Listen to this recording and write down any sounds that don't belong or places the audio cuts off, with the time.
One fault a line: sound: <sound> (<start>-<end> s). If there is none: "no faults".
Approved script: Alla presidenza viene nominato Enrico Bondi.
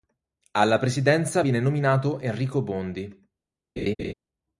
sound: laugh (3.8-4.1 s)